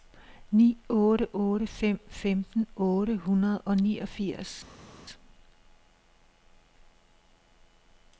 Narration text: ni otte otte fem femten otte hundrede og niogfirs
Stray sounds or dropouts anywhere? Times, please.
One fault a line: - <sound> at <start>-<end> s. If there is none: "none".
none